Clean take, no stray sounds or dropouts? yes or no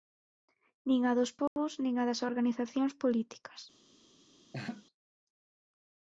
no